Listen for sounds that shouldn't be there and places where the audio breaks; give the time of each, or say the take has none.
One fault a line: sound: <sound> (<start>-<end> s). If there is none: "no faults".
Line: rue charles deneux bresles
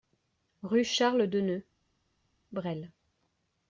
no faults